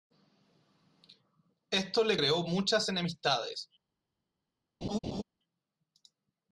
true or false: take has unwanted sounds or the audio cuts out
true